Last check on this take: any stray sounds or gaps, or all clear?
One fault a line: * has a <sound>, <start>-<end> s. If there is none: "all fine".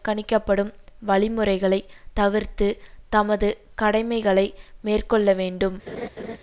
* has a laugh, 5.9-6.4 s